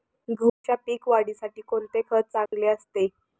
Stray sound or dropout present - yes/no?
yes